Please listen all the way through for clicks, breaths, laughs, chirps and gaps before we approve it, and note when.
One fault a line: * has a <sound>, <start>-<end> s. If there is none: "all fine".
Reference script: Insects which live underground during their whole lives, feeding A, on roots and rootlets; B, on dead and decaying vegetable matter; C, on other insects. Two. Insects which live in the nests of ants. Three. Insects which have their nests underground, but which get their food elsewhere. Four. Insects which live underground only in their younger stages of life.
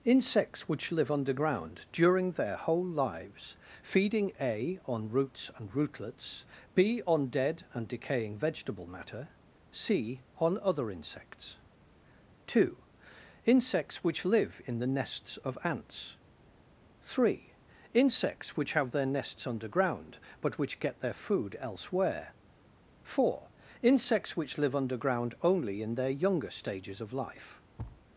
* has a thud, 27.8-28.0 s